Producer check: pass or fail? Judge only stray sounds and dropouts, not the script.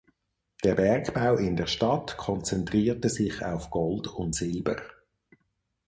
pass